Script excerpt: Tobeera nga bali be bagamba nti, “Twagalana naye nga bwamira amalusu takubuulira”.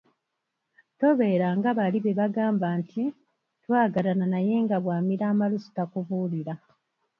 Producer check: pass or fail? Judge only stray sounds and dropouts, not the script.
pass